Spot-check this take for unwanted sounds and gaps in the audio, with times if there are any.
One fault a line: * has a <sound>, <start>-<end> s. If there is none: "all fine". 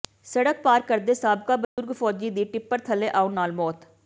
* has a dropout, 1.6-1.8 s